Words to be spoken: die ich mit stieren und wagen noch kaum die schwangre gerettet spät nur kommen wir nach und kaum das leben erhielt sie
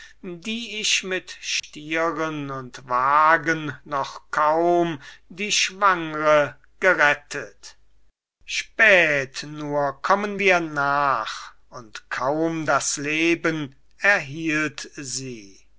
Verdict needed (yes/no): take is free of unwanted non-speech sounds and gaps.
no